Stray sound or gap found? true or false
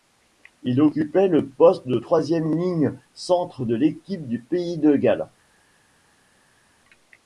false